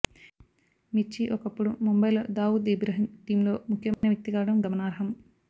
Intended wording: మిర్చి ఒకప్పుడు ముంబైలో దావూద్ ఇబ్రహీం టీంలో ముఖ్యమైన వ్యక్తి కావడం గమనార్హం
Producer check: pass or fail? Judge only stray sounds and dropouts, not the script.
fail